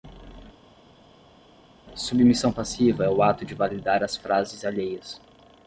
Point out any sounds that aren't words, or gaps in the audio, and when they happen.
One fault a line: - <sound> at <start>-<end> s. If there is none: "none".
none